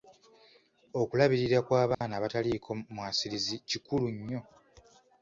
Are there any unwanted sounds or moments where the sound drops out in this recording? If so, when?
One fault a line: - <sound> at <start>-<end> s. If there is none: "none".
- dropout at 1.9-2.0 s